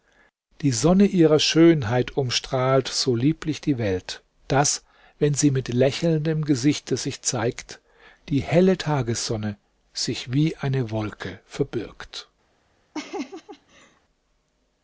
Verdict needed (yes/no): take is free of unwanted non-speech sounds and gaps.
no